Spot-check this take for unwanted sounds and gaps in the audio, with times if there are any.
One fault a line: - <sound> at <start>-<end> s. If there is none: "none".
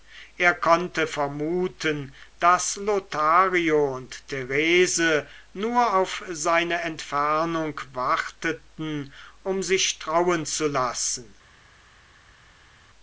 none